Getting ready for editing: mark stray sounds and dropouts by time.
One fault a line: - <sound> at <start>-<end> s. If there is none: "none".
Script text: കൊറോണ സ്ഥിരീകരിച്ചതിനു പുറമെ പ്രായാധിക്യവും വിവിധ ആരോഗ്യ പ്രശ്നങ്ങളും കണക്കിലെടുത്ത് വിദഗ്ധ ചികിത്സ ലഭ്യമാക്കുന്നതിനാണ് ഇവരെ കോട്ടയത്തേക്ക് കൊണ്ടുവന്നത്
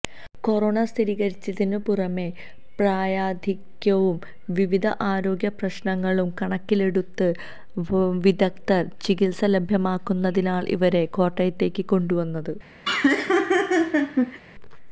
- laugh at 12.8-14.4 s